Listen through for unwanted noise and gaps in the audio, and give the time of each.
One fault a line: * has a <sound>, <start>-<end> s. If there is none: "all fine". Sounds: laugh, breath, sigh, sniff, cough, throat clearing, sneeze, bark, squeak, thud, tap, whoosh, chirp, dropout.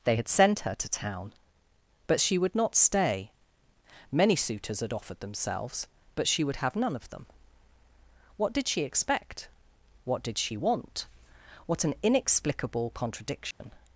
* has a dropout, 13.5-13.6 s